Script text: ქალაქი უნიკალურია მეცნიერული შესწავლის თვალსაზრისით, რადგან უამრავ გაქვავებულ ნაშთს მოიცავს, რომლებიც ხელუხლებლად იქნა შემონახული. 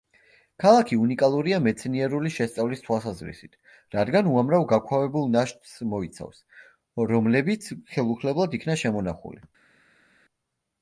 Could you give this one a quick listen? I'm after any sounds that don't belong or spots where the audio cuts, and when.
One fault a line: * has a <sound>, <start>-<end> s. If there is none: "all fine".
all fine